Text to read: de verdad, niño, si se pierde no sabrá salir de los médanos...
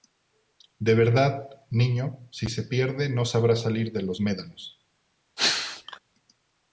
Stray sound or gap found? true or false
true